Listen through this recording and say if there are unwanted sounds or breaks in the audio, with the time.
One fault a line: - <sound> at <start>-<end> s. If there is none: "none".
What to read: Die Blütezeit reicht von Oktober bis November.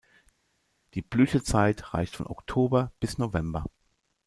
none